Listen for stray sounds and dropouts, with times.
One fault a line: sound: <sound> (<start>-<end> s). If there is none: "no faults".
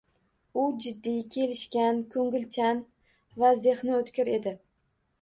no faults